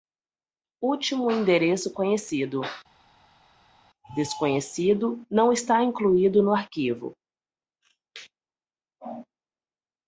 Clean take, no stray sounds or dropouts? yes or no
yes